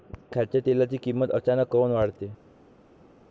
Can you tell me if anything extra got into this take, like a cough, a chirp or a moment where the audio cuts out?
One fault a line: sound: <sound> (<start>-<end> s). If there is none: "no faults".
no faults